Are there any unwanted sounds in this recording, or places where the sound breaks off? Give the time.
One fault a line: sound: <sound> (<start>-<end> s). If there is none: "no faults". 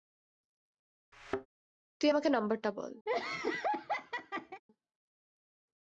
sound: thud (1.1-1.5 s)
sound: laugh (3.1-4.6 s)